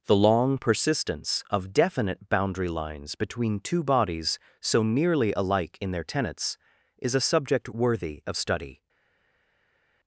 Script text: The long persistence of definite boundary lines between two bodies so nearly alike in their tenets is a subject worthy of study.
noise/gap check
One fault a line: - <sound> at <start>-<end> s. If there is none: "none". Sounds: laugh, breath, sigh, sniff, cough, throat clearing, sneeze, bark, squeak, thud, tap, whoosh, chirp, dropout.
none